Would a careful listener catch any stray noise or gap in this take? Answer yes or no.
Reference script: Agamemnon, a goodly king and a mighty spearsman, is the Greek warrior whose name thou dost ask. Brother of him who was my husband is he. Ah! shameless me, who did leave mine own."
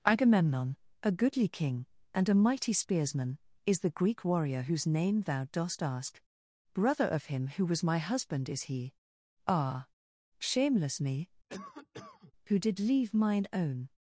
yes